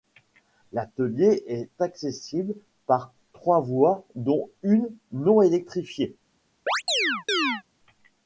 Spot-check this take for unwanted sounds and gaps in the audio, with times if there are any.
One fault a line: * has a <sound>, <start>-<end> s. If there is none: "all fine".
* has a chirp, 6.7-7.6 s